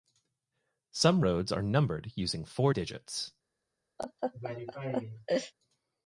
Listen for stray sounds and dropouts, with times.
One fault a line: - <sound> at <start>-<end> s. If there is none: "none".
- laugh at 4.0-5.5 s